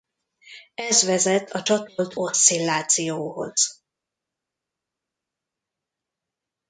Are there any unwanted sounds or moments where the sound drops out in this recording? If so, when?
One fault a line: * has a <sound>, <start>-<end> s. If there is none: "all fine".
all fine